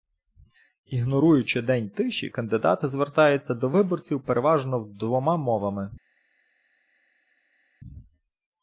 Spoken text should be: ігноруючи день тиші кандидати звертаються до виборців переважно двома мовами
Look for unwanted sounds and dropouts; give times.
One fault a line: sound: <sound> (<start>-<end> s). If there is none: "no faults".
no faults